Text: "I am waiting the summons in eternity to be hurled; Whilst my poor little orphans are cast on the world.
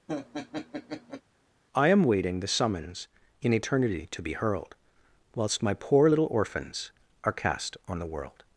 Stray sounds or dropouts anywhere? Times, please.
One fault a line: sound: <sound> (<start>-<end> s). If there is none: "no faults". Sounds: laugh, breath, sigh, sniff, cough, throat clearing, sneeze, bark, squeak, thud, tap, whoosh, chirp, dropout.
sound: laugh (0.1-1.2 s)